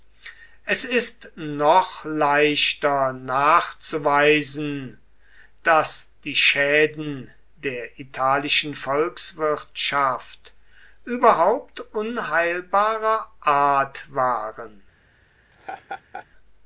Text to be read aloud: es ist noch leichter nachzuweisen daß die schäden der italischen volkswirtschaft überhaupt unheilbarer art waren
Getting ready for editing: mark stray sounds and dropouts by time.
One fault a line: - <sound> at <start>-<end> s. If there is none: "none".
- laugh at 15.5-16.3 s